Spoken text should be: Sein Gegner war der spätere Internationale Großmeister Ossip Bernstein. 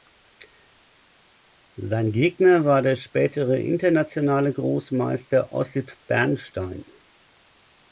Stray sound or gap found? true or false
false